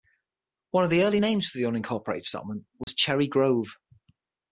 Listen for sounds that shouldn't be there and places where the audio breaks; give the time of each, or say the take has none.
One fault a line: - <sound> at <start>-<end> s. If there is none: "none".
- dropout at 2.8-2.9 s